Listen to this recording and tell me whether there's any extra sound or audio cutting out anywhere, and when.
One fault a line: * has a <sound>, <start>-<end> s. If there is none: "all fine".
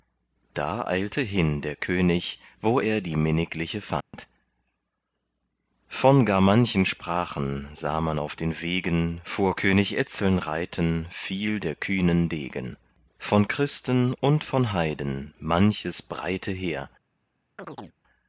* has a dropout, 4.0-4.1 s
* has a chirp, 17.6-18.0 s